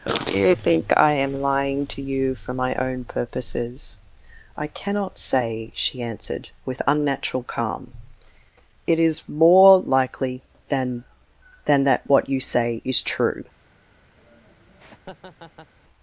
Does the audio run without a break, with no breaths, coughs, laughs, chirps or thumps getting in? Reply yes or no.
no